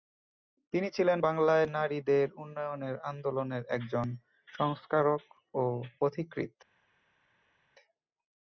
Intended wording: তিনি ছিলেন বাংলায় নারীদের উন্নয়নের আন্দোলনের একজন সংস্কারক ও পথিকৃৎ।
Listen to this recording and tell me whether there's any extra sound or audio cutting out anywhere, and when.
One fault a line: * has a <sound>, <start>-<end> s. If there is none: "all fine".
all fine